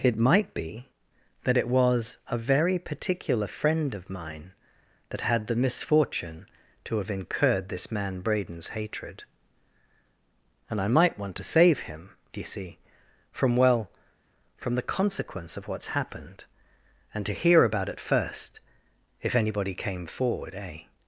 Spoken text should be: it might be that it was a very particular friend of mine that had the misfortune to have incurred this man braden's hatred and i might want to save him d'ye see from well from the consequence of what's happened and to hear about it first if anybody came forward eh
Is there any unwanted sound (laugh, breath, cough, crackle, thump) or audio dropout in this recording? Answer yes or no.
no